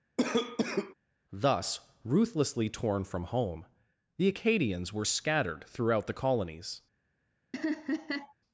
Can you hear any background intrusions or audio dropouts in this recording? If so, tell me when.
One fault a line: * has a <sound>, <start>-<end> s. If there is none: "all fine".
* has a cough, 0.2-0.9 s
* has a laugh, 7.5-8.3 s